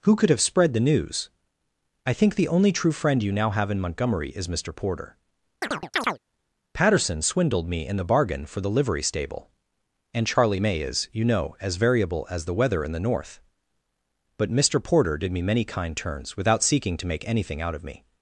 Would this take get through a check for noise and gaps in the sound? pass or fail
fail